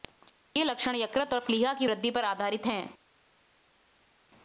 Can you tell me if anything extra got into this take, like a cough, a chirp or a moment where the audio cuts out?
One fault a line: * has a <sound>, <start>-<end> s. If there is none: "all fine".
all fine